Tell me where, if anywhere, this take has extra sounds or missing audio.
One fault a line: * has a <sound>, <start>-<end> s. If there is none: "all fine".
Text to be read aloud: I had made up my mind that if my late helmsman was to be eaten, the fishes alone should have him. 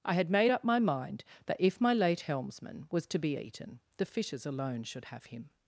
all fine